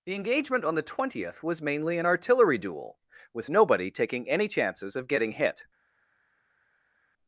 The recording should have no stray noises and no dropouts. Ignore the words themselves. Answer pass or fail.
pass